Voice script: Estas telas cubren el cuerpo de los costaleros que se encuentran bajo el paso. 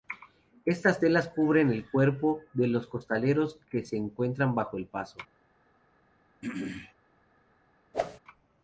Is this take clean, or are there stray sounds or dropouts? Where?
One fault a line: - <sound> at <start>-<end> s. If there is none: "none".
- throat clearing at 6.4-6.9 s
- whoosh at 7.9-8.2 s